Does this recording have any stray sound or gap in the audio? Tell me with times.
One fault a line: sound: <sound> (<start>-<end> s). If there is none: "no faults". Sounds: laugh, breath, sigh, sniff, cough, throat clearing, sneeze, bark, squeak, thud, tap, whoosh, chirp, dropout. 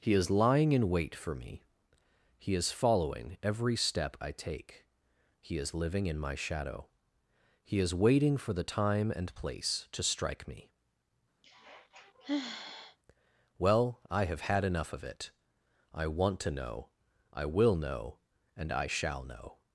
sound: sigh (11.4-13.0 s)